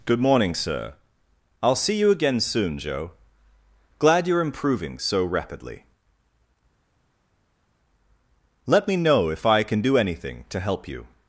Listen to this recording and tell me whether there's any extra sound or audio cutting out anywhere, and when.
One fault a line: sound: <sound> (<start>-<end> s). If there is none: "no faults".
no faults